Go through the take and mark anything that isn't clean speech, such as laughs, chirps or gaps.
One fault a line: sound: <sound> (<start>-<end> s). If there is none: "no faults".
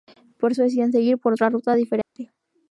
sound: dropout (2.0-2.2 s)